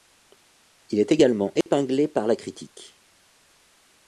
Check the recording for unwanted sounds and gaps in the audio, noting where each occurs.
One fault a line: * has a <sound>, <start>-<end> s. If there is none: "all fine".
* has a dropout, 1.6-1.7 s